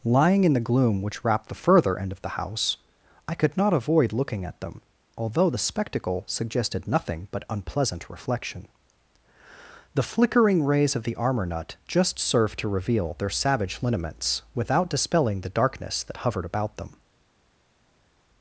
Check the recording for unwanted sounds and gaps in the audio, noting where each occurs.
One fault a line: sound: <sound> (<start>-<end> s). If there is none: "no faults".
no faults